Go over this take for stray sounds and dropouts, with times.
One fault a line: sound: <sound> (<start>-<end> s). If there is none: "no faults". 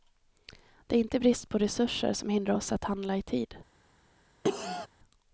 sound: cough (4.4-4.9 s)